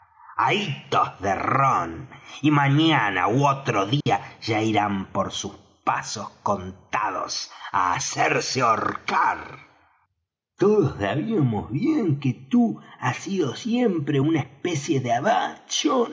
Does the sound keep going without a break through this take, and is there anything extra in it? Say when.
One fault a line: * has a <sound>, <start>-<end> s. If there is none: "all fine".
* has a dropout, 4.0-4.1 s